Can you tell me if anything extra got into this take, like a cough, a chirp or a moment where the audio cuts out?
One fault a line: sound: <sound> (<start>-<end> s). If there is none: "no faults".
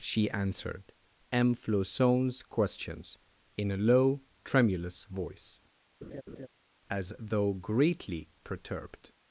sound: laugh (6.0-6.5 s)